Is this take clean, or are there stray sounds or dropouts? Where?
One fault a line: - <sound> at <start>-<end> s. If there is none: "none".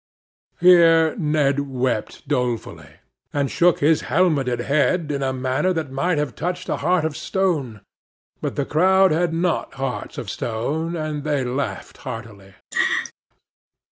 - laugh at 12.7-13.1 s